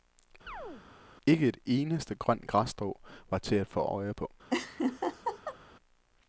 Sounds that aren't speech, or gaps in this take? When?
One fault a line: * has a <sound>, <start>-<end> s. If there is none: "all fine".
* has a chirp, 0.5-0.9 s
* has a laugh, 4.5-5.6 s